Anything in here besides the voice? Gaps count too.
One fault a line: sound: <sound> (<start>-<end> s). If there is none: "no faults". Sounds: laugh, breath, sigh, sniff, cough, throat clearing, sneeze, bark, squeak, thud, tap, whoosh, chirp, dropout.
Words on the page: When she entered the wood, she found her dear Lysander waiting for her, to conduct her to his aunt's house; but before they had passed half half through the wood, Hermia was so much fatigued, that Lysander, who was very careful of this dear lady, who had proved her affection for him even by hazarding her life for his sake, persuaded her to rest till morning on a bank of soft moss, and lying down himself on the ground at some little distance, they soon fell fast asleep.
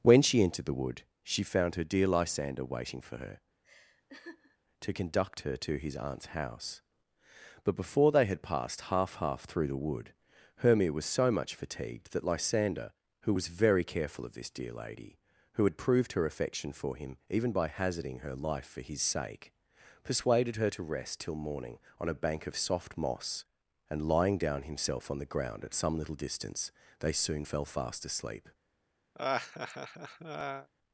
sound: laugh (3.6-4.6 s)
sound: laugh (29.1-30.7 s)